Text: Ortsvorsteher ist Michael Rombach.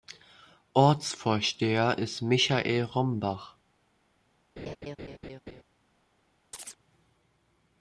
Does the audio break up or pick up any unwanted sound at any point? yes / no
yes